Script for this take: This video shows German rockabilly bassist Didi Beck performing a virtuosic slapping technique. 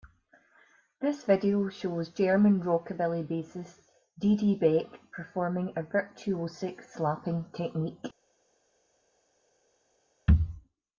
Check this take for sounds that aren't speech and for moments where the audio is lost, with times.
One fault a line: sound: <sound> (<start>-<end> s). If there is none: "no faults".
no faults